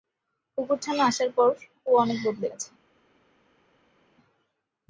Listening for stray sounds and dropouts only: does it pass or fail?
pass